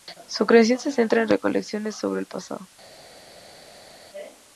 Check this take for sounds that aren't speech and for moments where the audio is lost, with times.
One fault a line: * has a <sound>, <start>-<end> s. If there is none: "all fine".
all fine